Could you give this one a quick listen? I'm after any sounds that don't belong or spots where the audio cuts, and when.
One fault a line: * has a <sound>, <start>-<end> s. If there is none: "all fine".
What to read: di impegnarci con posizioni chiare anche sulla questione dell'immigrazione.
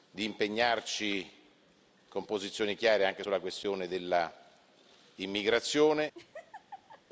* has a laugh, 6.1-7.0 s